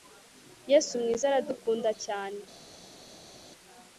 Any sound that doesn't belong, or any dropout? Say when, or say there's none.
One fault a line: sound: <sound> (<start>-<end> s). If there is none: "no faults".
no faults